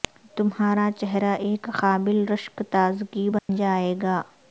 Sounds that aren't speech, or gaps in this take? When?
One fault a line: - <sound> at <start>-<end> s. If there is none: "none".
- dropout at 3.4-3.5 s